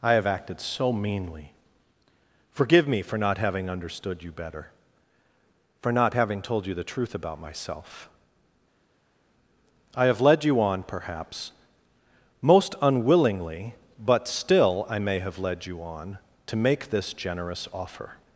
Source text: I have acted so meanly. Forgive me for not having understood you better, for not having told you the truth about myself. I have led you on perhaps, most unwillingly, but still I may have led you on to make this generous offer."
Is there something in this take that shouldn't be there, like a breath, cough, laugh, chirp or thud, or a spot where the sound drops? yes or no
no